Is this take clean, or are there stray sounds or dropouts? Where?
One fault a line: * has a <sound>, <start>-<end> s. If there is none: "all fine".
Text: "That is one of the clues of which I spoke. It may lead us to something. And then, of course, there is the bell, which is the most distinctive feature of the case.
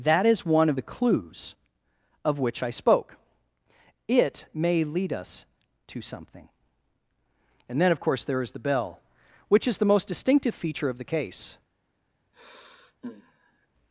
* has a sigh, 12.3-13.7 s